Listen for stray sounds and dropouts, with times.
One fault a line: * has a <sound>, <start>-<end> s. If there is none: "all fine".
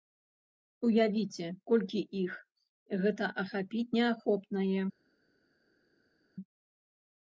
all fine